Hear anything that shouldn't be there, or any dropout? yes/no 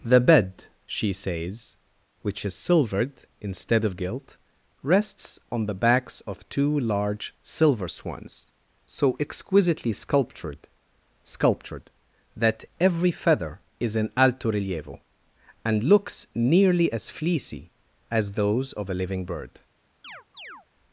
yes